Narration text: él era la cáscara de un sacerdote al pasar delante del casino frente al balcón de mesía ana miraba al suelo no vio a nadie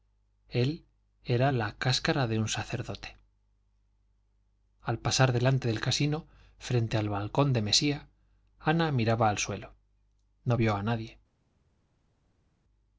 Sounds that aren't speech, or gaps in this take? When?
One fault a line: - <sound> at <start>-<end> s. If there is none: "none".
none